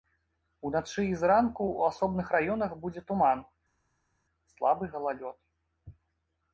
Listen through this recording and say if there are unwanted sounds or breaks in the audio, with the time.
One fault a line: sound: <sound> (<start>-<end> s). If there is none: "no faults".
no faults